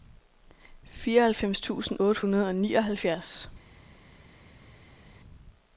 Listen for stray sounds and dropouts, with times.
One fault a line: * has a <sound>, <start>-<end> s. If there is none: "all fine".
all fine